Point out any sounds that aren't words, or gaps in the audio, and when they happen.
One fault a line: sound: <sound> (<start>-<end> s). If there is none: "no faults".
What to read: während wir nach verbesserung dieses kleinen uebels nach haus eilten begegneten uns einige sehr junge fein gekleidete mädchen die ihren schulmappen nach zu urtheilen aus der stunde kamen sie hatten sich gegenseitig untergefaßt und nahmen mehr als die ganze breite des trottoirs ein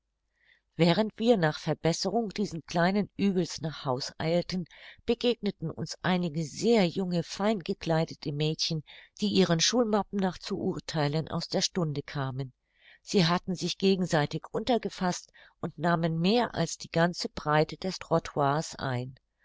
no faults